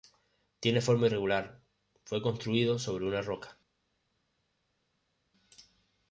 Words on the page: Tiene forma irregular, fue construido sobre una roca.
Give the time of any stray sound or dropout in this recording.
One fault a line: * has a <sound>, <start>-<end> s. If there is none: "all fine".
all fine